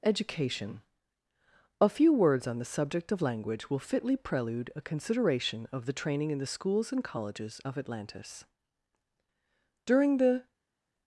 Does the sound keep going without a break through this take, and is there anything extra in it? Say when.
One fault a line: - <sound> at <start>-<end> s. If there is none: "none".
none